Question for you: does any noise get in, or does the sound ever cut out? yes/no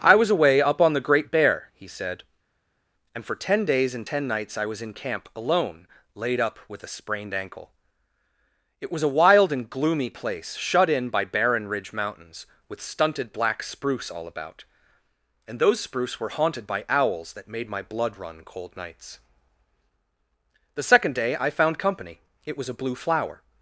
no